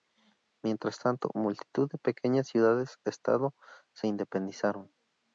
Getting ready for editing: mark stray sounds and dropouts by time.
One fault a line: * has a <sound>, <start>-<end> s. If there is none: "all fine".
all fine